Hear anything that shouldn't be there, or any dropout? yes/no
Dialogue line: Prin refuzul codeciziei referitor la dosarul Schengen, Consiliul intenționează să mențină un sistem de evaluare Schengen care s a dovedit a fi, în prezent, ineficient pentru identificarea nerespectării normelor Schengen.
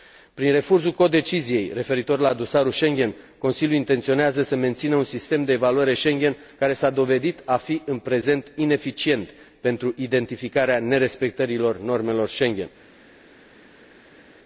no